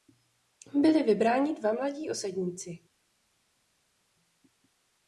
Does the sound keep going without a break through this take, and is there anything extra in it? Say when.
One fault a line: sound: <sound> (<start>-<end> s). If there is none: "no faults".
no faults